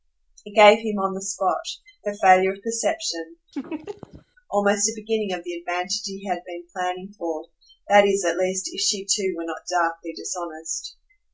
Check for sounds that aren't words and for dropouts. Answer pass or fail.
fail